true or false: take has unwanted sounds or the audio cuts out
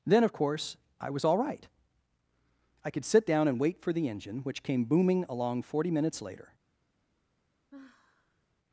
true